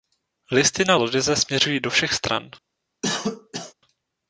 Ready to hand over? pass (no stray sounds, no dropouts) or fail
fail